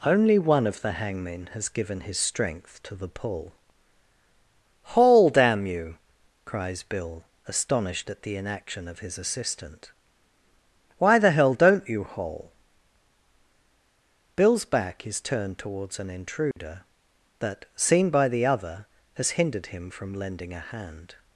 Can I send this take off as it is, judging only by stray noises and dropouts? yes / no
no